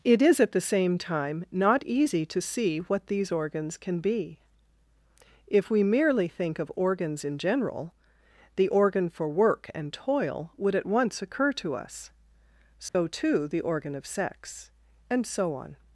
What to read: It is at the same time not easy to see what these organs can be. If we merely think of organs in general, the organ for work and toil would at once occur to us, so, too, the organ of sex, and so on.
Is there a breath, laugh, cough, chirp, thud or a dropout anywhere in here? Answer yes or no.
yes